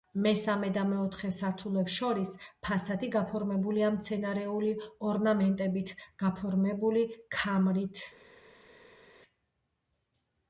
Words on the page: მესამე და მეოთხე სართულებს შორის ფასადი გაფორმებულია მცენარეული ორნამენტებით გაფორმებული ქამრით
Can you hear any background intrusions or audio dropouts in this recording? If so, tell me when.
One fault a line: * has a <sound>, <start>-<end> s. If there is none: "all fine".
all fine